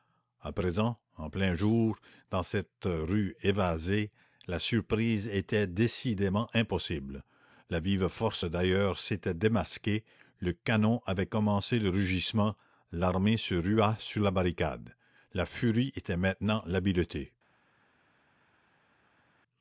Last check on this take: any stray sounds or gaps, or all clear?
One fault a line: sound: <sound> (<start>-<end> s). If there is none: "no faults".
no faults